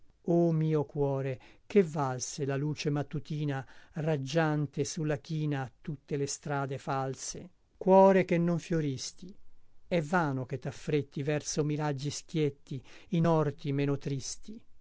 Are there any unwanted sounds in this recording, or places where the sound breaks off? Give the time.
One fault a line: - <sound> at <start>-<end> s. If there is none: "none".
none